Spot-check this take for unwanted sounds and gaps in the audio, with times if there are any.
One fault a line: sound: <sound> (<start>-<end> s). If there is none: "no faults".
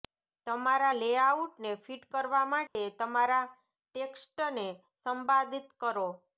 sound: dropout (2.7-2.8 s)